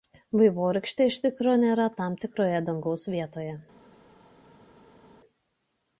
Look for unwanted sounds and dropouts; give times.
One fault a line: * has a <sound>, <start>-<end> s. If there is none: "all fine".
all fine